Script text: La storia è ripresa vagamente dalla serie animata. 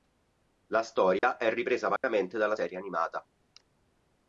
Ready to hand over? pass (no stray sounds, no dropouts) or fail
fail